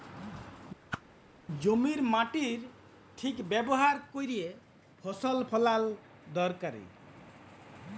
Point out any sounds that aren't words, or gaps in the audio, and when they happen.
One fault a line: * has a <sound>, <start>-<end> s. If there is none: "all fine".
* has a whoosh, 0.9-1.0 s